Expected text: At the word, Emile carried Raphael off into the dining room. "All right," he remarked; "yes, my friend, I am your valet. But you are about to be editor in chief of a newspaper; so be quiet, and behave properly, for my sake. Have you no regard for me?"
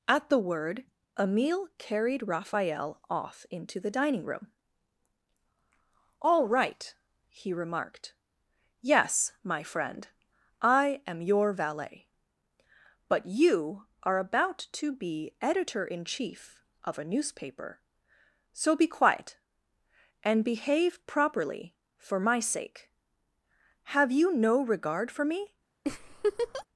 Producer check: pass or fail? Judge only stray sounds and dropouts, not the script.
fail